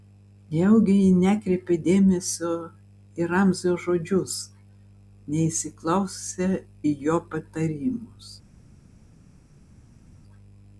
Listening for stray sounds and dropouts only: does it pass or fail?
pass